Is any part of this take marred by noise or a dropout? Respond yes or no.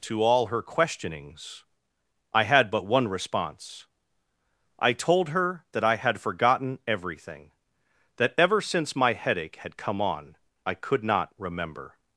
no